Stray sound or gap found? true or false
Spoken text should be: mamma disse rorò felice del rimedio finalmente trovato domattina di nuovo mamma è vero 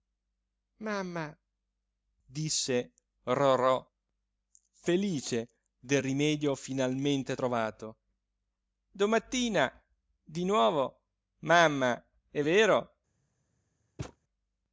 true